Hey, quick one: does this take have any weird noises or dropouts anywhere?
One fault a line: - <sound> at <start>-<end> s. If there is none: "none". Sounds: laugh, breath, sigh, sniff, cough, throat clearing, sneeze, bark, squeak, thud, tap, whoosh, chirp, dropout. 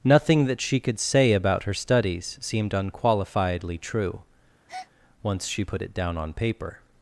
- breath at 4.7-4.9 s